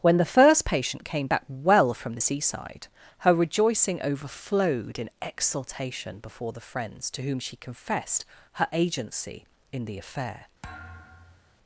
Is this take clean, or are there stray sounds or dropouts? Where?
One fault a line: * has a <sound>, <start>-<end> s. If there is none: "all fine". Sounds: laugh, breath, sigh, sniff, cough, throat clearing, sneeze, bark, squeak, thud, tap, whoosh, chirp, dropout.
* has a thud, 10.6-11.6 s